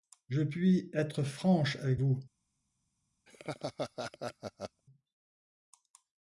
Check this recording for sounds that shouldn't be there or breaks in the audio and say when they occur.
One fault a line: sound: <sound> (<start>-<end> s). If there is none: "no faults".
sound: laugh (3.3-4.8 s)